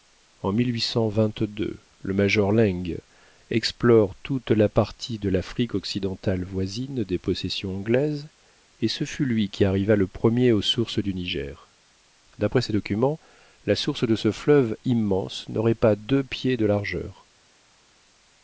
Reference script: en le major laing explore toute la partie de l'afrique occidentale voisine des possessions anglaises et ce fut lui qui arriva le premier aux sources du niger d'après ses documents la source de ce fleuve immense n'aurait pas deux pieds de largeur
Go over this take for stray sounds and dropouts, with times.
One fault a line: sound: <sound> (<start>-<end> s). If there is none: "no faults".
no faults